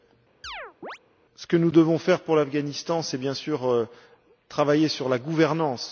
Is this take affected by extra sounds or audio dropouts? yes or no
yes